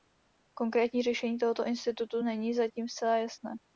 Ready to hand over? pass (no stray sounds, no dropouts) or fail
pass